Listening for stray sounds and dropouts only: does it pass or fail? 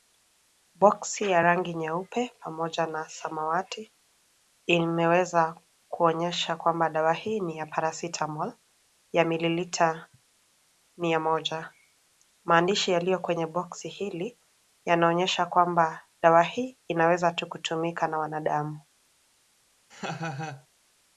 fail